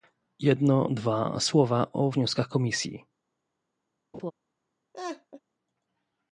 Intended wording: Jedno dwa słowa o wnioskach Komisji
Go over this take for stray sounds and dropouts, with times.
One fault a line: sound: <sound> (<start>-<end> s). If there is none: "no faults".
sound: laugh (4.1-4.3 s)
sound: laugh (4.9-5.4 s)